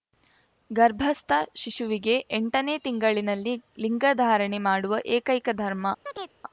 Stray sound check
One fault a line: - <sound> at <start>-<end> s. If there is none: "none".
- chirp at 6.1-6.3 s